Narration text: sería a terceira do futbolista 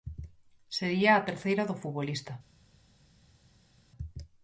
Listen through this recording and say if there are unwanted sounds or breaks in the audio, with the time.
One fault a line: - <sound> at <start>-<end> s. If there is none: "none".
none